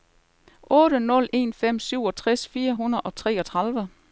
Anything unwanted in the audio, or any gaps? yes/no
no